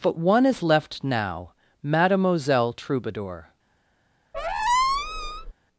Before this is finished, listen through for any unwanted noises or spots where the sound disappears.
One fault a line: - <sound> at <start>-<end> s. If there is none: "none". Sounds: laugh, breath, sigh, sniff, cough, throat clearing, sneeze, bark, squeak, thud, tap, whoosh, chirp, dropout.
- squeak at 4.3-5.5 s